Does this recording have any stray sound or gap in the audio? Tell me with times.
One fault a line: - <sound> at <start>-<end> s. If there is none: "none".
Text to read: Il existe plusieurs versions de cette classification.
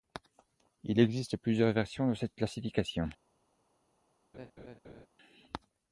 - laugh at 4.3-5.1 s